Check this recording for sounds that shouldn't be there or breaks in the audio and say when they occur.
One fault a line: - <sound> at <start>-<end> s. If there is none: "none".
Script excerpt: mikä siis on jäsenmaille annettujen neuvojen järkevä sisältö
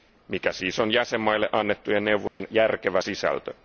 - dropout at 2.3-2.4 s